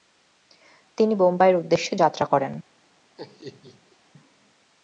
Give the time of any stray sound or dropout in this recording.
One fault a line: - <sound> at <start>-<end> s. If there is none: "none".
- laugh at 3.2-4.0 s